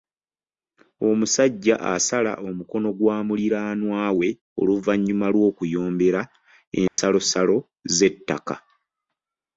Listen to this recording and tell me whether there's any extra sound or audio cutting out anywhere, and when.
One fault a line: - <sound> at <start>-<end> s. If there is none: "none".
- dropout at 6.9-7.0 s